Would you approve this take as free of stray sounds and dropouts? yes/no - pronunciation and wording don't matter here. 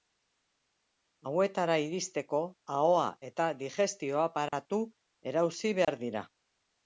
no